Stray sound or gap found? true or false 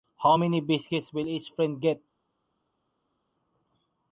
false